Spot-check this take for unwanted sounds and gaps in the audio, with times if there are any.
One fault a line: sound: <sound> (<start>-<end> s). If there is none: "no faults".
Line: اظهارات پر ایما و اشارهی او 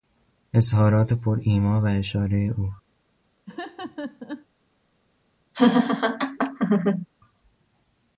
sound: laugh (3.5-4.5 s)
sound: laugh (5.5-7.1 s)